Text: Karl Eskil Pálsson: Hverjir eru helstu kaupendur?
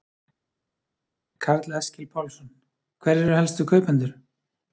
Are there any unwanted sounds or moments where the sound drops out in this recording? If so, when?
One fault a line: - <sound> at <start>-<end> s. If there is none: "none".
none